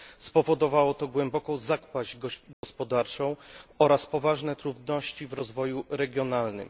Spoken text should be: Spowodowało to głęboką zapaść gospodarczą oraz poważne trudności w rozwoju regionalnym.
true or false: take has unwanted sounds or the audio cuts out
true